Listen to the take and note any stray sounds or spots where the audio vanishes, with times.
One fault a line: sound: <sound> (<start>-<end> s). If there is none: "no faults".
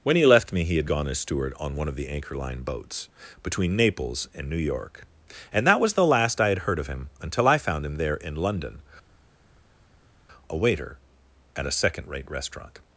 no faults